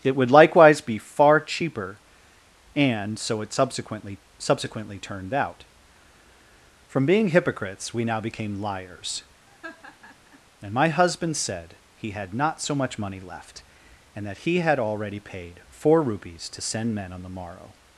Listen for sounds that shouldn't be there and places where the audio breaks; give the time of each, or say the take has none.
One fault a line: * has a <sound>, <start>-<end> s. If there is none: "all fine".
* has a laugh, 9.5-10.4 s